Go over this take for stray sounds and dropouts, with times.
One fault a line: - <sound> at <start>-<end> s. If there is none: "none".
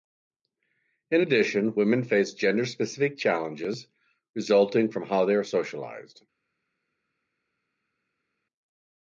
none